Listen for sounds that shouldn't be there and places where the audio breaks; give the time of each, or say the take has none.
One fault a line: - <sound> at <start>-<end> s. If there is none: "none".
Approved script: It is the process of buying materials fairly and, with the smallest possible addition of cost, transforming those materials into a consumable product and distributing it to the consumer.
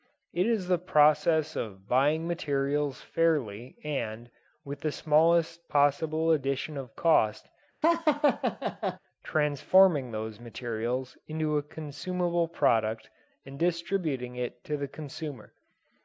- laugh at 7.8-9.0 s